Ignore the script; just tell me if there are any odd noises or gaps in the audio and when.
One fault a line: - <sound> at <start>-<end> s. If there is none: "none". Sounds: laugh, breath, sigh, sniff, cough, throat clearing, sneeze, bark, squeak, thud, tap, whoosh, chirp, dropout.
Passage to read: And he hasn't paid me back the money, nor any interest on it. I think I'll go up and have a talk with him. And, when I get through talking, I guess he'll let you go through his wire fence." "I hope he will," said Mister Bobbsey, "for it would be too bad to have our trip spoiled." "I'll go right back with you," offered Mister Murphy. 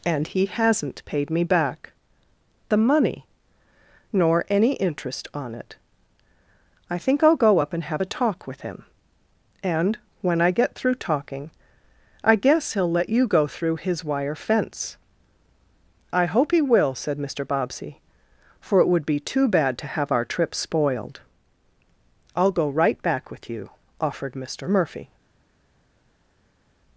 none